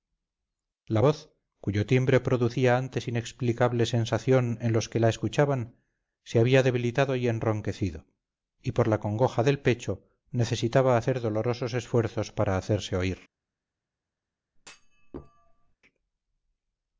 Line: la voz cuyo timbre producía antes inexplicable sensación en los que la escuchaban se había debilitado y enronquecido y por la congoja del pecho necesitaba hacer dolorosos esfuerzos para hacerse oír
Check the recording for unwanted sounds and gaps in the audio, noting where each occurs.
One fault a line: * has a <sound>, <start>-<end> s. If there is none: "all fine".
* has a thud, 14.6-15.8 s